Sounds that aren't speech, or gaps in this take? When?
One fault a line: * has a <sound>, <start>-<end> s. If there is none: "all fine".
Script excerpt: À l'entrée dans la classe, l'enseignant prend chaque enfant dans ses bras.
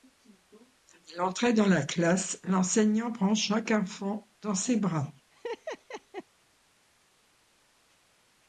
* has a laugh, 5.3-6.2 s